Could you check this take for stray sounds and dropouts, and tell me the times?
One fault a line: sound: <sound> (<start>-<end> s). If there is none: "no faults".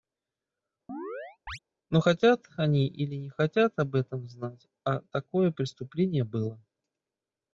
sound: chirp (0.9-1.6 s)